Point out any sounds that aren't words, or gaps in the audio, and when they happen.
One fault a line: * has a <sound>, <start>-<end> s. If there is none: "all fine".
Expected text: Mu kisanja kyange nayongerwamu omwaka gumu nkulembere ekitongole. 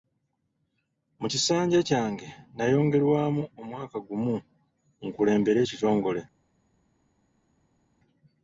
all fine